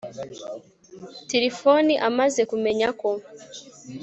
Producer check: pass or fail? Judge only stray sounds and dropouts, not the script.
pass